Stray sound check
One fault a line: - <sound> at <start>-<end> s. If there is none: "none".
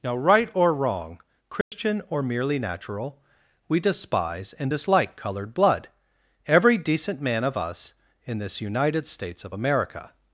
- dropout at 1.6-1.7 s